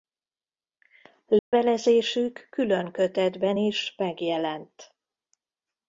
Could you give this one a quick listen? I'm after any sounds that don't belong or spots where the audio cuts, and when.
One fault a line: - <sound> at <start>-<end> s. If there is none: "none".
- dropout at 1.4-1.5 s